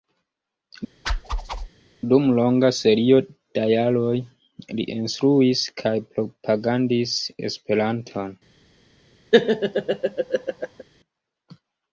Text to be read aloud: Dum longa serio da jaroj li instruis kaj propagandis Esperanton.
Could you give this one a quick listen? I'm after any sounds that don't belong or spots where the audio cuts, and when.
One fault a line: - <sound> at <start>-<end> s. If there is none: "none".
- whoosh at 1.1-1.7 s
- laugh at 9.3-10.8 s